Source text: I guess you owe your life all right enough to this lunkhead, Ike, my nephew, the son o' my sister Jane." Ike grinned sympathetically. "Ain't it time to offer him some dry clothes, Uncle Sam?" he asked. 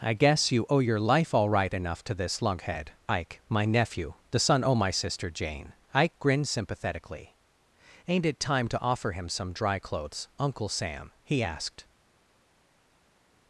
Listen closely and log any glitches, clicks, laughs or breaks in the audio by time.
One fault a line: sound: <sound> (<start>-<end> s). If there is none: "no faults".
no faults